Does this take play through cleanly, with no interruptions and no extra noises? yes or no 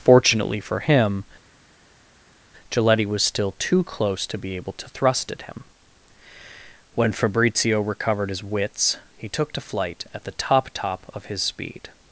yes